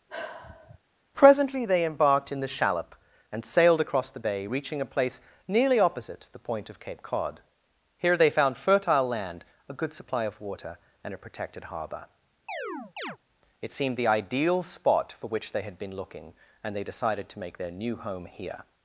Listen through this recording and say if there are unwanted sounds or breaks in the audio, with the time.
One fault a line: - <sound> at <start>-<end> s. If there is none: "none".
- sigh at 0.1-0.8 s
- chirp at 12.5-13.2 s